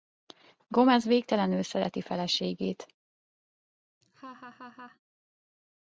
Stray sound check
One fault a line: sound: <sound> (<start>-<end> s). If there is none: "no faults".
sound: laugh (4.0-5.0 s)